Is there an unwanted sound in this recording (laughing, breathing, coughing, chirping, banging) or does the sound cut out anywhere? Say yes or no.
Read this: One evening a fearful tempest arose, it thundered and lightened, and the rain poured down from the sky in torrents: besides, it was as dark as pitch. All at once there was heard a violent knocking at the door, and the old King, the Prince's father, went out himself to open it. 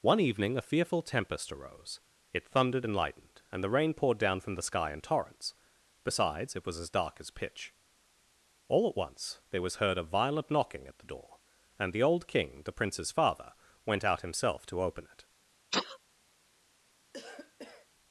yes